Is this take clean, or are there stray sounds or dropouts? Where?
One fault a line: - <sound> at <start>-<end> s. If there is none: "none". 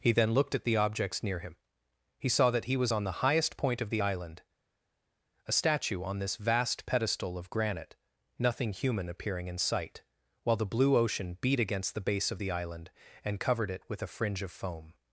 none